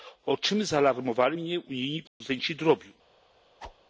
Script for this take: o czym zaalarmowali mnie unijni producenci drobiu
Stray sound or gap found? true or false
true